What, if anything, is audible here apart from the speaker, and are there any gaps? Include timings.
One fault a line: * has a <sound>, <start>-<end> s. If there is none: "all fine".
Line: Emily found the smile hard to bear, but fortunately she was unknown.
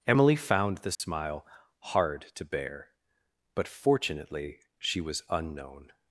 * has a dropout, 0.9-1.0 s